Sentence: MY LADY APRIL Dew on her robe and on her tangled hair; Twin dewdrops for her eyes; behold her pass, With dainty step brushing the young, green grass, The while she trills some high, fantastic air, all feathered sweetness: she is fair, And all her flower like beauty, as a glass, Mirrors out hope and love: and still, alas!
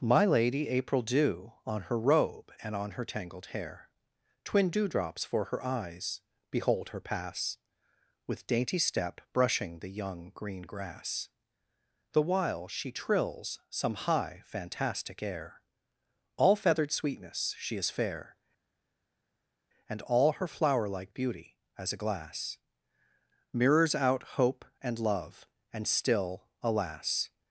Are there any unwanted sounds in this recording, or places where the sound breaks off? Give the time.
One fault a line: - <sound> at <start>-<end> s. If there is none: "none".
none